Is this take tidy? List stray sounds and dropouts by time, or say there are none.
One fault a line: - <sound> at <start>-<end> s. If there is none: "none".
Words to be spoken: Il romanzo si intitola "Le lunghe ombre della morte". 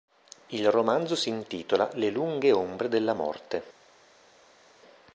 none